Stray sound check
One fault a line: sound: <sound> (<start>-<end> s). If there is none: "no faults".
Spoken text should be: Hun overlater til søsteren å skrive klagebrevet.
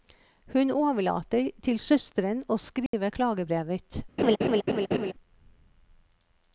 sound: dropout (2.9-2.9 s)
sound: laugh (4.2-5.1 s)